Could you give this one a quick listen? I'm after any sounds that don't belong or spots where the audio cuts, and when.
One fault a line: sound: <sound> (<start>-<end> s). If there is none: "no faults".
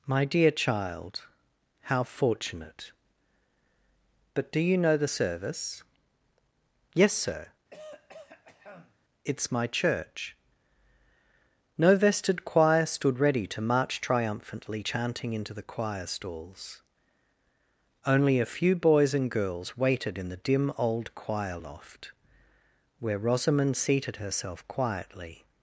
sound: throat clearing (7.7-9.0 s)